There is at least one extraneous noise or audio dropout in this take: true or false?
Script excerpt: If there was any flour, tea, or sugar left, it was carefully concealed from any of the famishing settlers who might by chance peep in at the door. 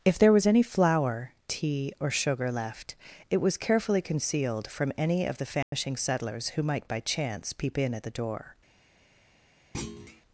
true